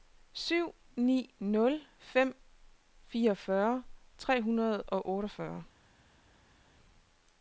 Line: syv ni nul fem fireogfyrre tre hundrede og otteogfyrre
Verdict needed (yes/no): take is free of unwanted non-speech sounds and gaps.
yes